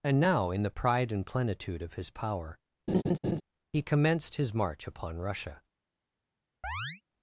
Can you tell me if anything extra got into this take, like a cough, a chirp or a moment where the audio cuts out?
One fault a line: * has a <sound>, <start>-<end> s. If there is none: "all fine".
* has a laugh, 2.9-3.4 s
* has a chirp, 6.6-7.0 s